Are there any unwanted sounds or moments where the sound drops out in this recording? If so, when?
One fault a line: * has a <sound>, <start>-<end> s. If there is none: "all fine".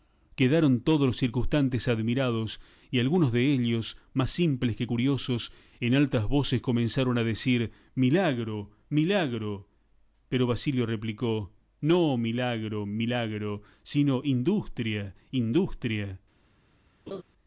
* has a laugh, 17.1-17.2 s